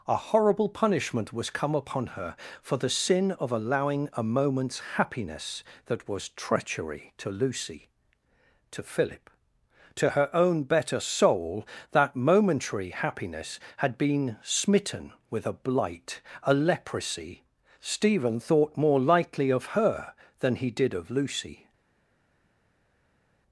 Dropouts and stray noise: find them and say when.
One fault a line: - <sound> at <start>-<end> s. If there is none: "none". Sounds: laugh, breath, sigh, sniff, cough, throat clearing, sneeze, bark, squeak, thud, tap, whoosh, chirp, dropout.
none